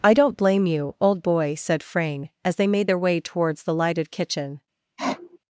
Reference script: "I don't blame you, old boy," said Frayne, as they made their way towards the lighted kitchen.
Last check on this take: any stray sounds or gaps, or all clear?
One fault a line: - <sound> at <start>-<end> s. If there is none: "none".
- sniff at 5.0-5.4 s